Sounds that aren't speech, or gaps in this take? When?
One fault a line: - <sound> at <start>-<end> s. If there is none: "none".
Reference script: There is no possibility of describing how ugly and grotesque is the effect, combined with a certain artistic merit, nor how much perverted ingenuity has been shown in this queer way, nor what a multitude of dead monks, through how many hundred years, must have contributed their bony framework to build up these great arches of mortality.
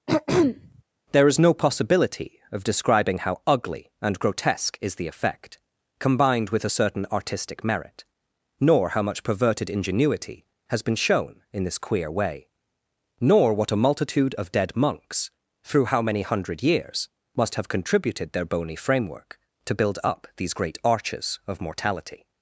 - throat clearing at 0.1-0.8 s